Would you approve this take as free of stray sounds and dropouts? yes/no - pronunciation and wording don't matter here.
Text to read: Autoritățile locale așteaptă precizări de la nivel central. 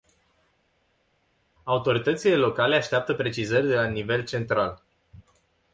yes